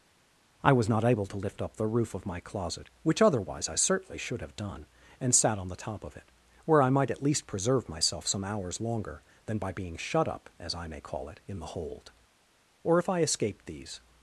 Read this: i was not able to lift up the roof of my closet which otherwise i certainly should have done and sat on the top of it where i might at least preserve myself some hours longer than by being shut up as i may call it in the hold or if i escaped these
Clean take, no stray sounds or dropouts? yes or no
yes